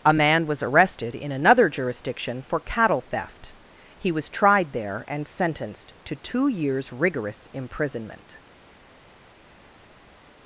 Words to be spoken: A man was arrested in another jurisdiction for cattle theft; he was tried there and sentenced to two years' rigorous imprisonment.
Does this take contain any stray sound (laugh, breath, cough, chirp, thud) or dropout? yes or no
no